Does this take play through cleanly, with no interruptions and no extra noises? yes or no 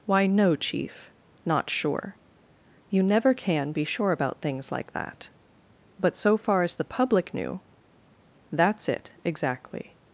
yes